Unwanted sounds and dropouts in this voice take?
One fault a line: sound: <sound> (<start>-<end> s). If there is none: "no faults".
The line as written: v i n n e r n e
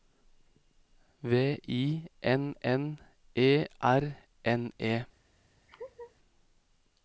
sound: laugh (5.7-6.1 s)